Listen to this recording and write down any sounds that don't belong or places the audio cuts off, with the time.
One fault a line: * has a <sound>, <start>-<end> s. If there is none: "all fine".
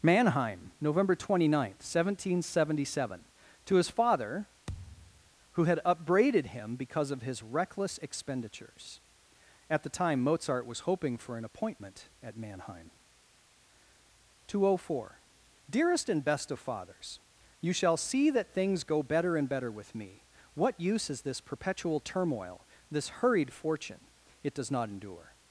* has a thud, 4.7-5.3 s